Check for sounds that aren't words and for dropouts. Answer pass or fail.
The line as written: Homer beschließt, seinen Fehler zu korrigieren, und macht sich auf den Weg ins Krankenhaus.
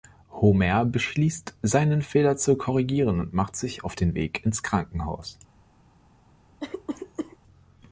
fail